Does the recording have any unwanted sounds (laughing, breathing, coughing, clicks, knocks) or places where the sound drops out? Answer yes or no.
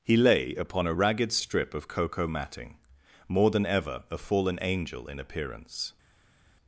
no